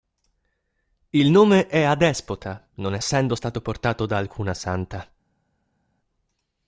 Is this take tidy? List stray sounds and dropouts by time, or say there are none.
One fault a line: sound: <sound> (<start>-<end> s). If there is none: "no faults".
no faults